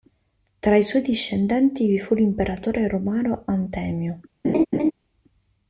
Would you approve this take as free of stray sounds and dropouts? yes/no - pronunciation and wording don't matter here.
no